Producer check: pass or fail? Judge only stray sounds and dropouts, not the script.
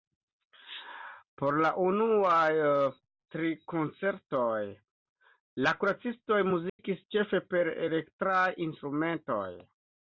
fail